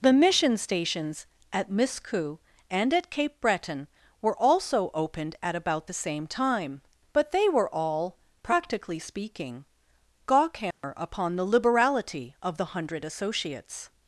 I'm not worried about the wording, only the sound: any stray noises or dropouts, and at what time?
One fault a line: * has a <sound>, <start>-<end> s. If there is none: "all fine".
* has a dropout, 10.7-10.8 s